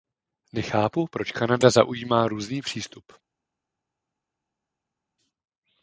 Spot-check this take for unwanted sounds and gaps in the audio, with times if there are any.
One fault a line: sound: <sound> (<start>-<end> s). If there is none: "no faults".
no faults